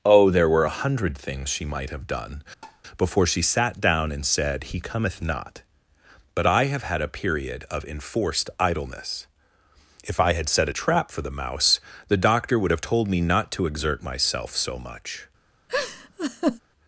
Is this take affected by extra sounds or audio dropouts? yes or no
yes